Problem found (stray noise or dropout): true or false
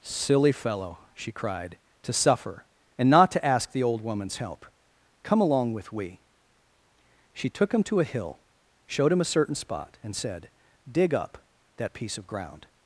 false